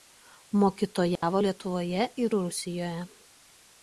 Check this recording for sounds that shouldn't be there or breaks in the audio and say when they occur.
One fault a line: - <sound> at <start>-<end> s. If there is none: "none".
- dropout at 1.2-1.2 s